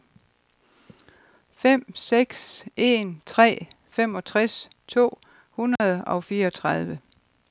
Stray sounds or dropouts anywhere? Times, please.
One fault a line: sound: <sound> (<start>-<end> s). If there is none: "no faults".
sound: dropout (5.8-5.8 s)